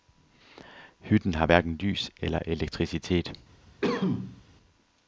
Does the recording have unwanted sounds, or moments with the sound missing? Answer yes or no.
yes